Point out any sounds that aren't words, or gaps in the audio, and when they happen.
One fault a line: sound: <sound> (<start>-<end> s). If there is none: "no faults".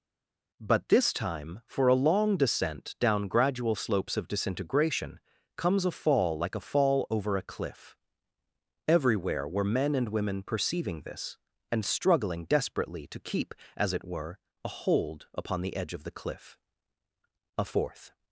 no faults